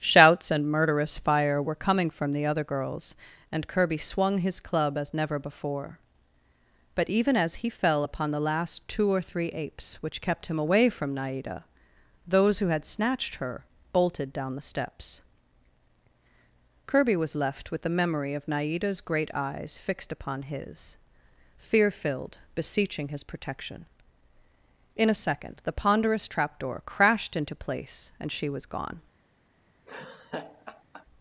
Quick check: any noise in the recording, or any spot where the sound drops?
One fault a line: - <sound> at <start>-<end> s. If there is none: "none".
- laugh at 29.8-31.1 s